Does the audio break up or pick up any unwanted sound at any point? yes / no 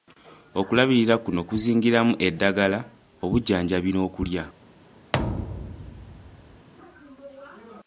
yes